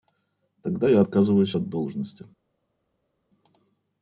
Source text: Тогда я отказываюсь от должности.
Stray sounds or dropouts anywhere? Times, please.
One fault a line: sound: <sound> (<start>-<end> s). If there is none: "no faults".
no faults